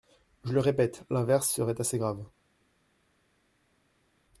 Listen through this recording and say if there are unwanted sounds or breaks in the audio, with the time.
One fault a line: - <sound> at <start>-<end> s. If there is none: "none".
none